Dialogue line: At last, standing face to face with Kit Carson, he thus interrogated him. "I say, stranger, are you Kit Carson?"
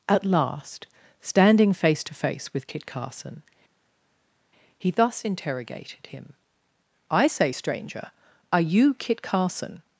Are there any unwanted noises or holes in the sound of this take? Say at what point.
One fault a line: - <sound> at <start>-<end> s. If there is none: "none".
none